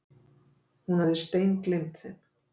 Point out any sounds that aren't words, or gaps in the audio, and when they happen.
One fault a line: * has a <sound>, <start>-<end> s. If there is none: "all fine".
all fine